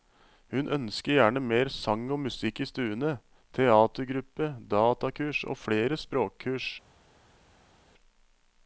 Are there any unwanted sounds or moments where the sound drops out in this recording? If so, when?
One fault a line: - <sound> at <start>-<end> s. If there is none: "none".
none